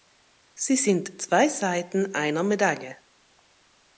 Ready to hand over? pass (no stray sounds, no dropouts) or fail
pass